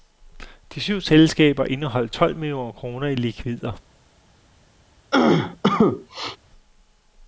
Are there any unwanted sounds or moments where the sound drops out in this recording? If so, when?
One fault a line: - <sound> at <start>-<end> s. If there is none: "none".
- cough at 5.1-6.4 s